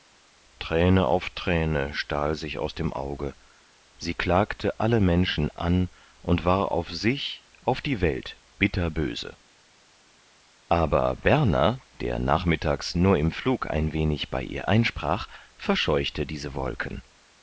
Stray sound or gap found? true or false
false